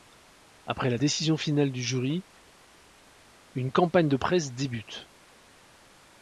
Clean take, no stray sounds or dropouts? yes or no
yes